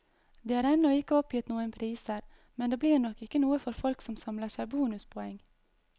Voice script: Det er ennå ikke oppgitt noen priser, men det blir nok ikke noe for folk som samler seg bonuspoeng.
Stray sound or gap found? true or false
false